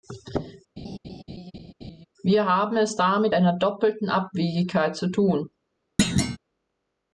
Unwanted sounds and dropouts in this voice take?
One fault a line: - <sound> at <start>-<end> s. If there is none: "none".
- laugh at 0.8-2.1 s
- thud at 6.0-6.4 s